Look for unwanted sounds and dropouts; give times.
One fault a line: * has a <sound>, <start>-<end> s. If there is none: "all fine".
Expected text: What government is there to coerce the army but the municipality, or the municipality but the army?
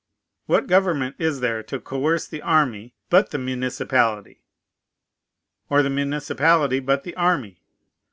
all fine